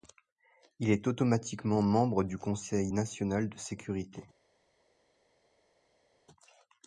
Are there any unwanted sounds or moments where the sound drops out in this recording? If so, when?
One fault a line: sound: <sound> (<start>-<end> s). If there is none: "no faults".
no faults